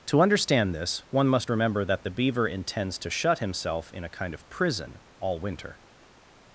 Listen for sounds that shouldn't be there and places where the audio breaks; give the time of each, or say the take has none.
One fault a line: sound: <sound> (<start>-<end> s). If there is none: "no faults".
no faults